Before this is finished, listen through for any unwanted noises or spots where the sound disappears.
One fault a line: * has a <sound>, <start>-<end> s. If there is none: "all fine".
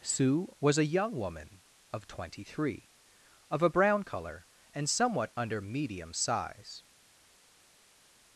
all fine